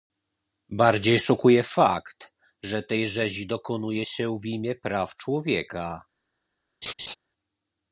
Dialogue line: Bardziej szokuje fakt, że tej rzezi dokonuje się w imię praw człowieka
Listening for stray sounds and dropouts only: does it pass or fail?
fail